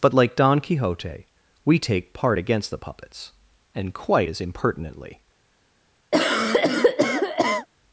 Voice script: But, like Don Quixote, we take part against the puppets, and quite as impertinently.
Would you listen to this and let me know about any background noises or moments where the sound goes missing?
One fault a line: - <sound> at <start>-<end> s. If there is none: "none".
- cough at 6.1-7.7 s